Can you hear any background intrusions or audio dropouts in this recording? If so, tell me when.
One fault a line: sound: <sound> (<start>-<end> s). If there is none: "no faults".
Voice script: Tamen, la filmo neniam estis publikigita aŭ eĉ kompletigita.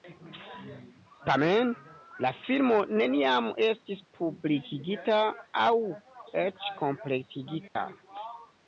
sound: dropout (7.7-7.8 s)